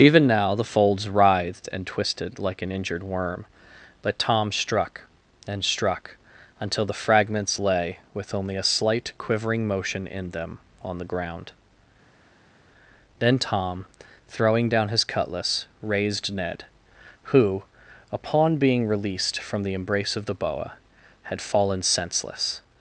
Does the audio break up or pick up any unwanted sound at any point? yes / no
no